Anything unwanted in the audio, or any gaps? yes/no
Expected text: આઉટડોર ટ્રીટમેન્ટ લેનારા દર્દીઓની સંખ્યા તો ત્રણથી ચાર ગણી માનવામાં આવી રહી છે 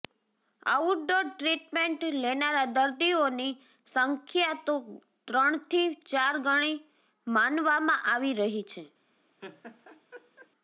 yes